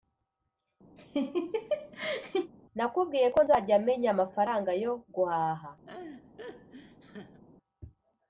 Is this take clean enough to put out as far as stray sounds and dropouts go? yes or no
no